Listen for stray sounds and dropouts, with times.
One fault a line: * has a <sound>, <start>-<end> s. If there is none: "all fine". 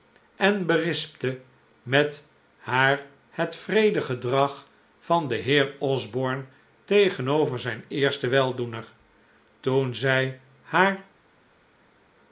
all fine